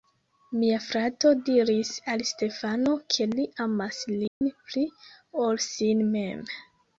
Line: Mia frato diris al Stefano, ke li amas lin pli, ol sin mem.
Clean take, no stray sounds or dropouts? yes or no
no